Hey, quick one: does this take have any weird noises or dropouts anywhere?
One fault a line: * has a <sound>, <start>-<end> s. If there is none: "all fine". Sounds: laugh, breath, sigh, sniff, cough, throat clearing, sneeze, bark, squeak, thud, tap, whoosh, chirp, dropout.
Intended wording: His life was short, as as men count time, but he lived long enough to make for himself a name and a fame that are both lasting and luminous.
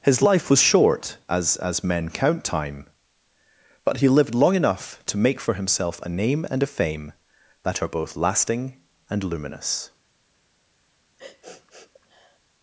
* has a sniff, 11.2-12.4 s